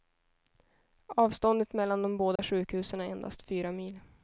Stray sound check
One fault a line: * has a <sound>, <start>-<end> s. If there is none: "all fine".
* has a dropout, 2.4-2.4 s